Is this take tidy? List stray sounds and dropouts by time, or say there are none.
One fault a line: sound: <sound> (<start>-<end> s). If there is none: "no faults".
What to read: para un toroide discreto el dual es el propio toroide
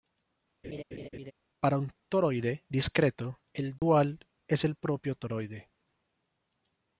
sound: laugh (0.6-1.3 s)
sound: dropout (3.8-3.8 s)